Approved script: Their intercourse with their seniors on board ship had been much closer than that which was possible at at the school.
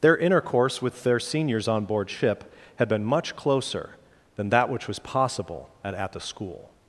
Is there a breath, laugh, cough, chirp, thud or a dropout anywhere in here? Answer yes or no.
no